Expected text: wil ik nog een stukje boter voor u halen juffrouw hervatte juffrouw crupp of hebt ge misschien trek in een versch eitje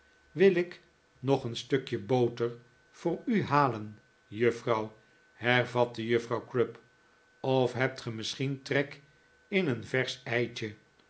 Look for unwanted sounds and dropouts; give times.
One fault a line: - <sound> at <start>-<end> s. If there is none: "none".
none